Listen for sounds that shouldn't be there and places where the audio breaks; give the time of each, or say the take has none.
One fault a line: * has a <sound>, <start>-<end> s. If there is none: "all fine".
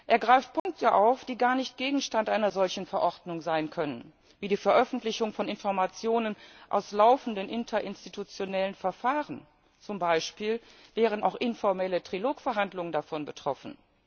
* has a dropout, 0.6-0.7 s